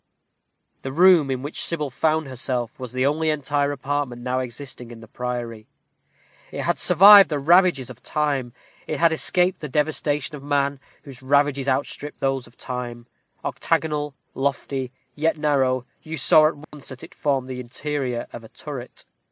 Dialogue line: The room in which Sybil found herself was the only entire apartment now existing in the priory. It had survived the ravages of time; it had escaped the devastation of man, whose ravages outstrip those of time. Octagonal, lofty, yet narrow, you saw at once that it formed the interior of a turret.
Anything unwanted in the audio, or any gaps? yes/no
yes